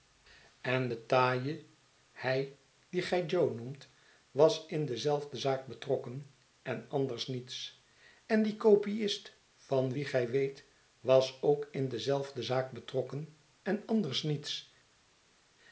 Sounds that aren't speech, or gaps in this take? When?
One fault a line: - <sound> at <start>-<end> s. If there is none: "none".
none